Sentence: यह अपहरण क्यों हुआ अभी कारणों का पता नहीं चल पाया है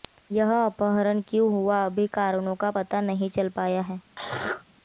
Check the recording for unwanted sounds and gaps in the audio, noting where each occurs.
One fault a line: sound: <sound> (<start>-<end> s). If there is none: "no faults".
sound: throat clearing (4.2-4.6 s)